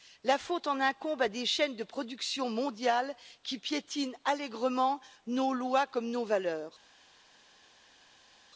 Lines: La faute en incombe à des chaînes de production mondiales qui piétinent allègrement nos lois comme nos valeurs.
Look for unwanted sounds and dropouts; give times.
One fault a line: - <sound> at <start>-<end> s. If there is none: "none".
none